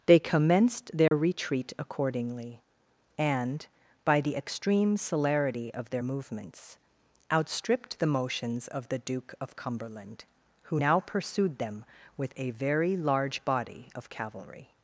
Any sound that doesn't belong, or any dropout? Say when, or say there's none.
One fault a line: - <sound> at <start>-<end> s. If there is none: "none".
- dropout at 1.1-1.1 s